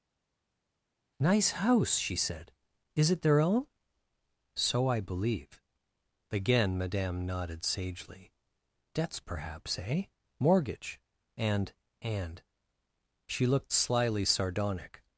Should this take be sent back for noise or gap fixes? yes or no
no